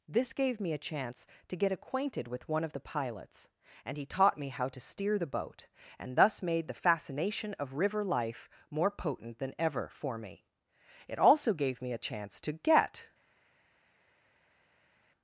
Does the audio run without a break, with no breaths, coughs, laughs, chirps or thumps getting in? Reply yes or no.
yes